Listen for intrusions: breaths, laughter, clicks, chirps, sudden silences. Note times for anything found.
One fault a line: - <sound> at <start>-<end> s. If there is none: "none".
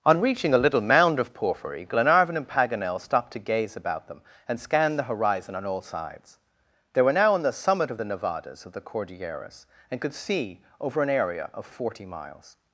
none